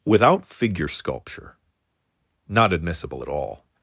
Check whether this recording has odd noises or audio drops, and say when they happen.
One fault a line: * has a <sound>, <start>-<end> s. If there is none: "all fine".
all fine